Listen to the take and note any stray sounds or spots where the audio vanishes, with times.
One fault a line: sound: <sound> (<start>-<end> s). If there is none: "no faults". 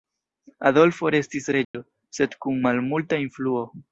sound: dropout (1.6-1.7 s)